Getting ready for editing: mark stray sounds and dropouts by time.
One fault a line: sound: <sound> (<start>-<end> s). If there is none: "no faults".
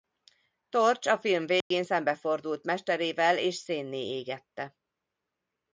sound: dropout (1.6-1.7 s)